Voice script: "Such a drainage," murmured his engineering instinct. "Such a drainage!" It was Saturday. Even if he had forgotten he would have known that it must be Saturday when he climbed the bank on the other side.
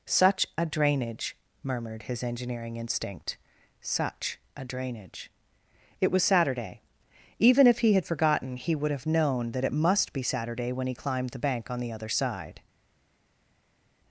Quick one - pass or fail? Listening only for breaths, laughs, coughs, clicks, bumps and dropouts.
pass